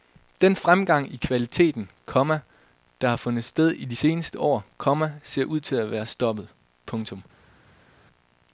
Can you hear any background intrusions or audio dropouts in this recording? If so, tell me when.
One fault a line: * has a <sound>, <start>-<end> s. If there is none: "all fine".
all fine